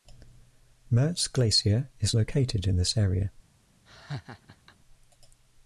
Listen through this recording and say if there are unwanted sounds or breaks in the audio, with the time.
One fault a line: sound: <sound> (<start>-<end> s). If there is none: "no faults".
sound: laugh (3.9-4.8 s)